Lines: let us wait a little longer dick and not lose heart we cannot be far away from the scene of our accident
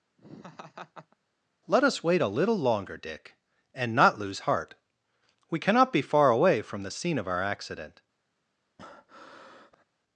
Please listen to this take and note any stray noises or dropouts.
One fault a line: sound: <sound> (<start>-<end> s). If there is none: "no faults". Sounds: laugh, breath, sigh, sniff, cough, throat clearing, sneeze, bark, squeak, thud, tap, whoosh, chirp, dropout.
sound: laugh (0.2-1.2 s)
sound: breath (8.8-9.8 s)